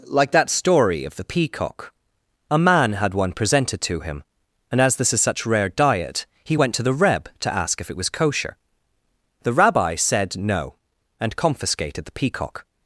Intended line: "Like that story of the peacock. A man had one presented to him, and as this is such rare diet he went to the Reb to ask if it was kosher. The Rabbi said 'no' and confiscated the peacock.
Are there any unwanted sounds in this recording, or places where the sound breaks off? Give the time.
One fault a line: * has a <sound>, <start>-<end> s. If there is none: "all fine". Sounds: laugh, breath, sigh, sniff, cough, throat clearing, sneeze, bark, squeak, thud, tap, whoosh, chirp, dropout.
all fine